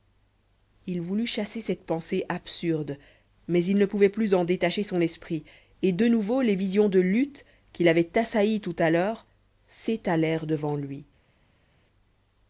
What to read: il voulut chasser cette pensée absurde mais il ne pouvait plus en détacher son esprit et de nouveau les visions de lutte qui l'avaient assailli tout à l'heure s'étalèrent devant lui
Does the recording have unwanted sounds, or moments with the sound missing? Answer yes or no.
no